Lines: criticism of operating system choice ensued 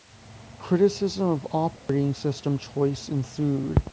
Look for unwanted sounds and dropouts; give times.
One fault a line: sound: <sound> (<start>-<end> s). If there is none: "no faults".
sound: dropout (1.8-1.9 s)